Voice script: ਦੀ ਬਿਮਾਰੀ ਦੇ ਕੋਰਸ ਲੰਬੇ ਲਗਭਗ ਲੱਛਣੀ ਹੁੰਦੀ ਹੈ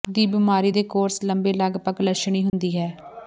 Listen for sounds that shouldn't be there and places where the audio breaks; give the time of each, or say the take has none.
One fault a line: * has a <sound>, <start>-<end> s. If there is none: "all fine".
* has a dropout, 2.5-2.5 s